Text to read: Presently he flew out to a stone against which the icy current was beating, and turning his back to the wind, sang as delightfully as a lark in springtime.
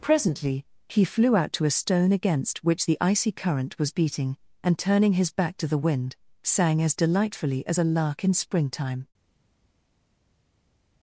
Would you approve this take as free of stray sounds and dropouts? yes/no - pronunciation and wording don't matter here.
yes